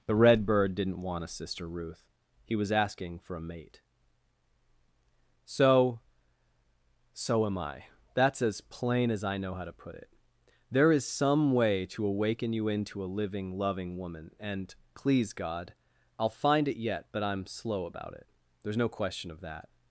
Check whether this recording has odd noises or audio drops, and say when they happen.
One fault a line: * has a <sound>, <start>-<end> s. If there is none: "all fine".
all fine